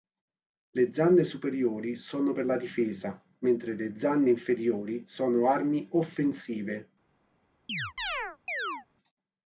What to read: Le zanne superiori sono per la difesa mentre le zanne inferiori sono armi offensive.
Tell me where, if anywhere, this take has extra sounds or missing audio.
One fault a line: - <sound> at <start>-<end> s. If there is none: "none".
- chirp at 7.7-8.9 s